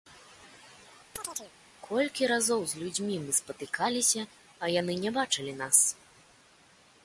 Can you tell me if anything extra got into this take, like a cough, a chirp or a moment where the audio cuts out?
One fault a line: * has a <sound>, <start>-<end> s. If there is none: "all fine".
* has a chirp, 1.1-1.5 s